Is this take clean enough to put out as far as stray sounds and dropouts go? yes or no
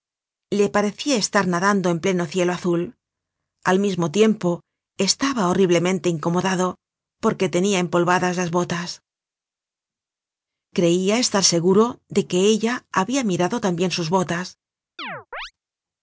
no